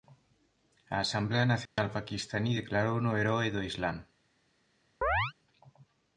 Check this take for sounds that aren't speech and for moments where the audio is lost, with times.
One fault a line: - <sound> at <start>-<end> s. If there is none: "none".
- dropout at 1.7-1.8 s
- chirp at 5.0-5.3 s